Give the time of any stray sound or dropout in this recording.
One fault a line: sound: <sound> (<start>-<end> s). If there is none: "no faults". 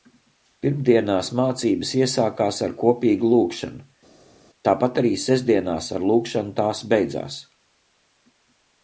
no faults